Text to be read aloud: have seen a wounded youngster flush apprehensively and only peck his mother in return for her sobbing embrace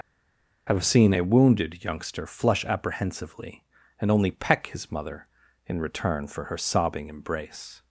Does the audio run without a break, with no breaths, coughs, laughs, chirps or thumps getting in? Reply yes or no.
yes